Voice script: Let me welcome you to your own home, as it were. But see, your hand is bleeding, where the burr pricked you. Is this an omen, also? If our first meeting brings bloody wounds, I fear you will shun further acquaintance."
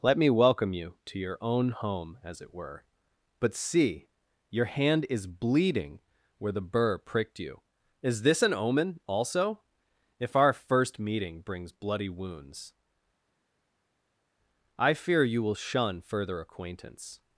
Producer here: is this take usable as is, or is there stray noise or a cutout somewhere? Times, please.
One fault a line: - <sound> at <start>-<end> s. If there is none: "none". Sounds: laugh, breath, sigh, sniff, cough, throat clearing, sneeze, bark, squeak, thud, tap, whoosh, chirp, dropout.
none